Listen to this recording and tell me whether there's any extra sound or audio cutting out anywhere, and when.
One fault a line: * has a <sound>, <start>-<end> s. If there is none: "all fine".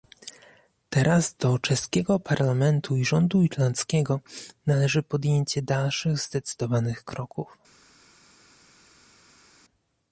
all fine